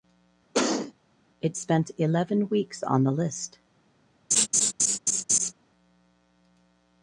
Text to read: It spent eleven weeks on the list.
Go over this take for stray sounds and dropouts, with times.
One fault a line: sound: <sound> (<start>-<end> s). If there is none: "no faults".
sound: cough (0.5-0.9 s)
sound: laugh (4.3-5.5 s)